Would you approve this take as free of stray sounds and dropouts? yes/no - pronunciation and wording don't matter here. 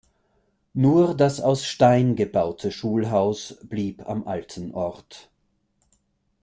yes